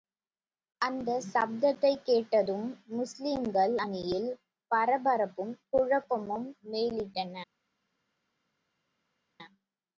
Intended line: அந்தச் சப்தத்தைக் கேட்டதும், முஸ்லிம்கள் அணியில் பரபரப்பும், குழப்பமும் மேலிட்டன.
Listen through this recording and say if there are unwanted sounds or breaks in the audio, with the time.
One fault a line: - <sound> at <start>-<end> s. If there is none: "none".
none